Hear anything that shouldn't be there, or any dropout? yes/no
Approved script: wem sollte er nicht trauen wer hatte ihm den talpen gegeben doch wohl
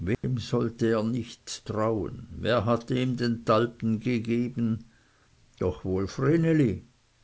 yes